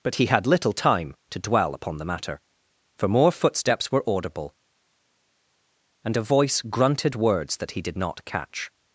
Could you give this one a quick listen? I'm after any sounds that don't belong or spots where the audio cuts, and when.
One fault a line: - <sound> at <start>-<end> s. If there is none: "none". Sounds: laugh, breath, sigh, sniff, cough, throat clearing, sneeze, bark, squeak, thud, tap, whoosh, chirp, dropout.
none